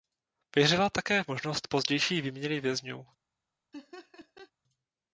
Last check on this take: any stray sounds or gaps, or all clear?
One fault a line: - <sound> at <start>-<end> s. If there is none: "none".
- laugh at 3.7-4.5 s